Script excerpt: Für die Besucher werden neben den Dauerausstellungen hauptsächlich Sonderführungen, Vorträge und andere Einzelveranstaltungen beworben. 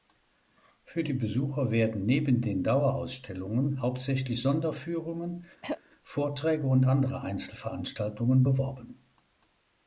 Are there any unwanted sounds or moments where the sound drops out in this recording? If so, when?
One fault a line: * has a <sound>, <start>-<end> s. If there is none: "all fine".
* has a throat clearing, 5.6-5.8 s